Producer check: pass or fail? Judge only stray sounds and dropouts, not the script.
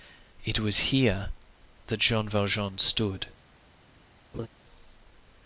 fail